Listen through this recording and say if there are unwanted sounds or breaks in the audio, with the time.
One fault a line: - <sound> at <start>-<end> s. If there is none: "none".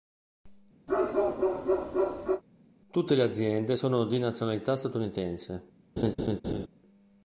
- bark at 0.9-2.4 s
- laugh at 6.0-6.7 s